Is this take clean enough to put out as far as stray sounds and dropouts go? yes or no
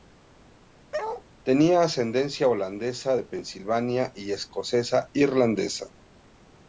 no